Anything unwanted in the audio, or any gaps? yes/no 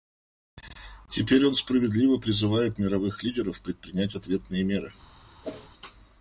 yes